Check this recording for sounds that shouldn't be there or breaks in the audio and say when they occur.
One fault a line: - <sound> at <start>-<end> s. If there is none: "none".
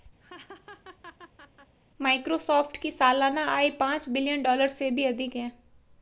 - laugh at 0.2-1.8 s